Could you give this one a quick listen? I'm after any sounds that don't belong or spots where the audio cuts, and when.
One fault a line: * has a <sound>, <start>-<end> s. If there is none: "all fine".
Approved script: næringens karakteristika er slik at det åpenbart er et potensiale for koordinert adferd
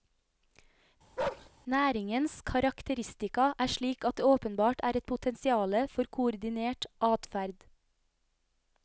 * has a bark, 1.2-1.5 s